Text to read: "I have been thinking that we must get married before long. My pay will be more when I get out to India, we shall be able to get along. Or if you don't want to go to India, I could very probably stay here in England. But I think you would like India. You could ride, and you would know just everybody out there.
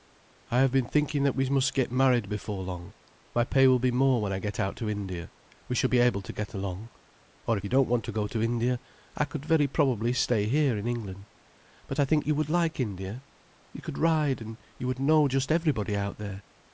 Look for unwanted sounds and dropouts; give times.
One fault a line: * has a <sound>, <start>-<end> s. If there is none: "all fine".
all fine